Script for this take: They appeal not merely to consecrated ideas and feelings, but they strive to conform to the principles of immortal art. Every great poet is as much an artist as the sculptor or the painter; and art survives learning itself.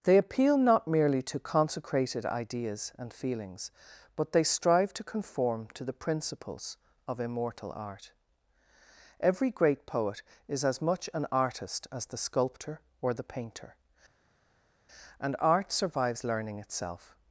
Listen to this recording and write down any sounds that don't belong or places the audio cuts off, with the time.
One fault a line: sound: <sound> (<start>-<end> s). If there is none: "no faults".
no faults